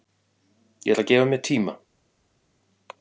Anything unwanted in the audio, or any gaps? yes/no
no